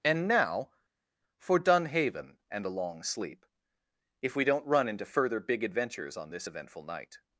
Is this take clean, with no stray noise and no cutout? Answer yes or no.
yes